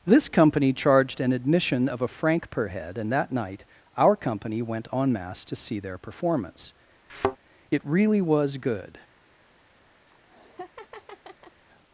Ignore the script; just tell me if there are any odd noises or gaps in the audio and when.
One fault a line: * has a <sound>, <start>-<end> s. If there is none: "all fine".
* has a thud, 7.1-7.4 s
* has a laugh, 10.1-11.6 s